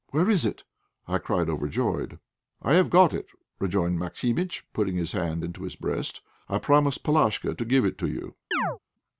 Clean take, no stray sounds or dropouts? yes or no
no